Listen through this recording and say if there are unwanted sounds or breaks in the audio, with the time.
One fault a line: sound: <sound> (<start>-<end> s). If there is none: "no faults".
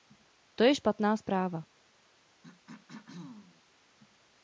sound: throat clearing (2.4-3.6 s)